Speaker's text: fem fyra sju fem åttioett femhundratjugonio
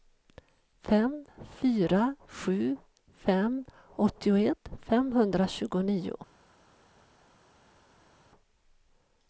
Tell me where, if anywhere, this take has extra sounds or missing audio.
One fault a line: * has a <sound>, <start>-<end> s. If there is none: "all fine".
all fine